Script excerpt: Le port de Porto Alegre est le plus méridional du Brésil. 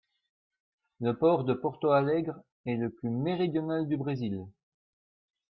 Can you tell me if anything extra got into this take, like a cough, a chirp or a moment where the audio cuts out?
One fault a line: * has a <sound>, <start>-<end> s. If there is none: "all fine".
all fine